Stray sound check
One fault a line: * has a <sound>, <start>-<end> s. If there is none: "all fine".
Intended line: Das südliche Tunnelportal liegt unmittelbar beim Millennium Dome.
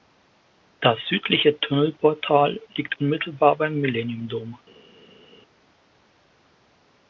all fine